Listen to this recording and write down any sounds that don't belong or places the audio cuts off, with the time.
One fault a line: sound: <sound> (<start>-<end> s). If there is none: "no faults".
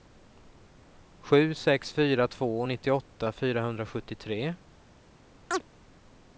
sound: chirp (5.5-5.6 s)